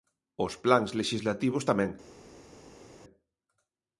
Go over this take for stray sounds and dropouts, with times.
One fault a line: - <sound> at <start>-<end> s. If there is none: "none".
none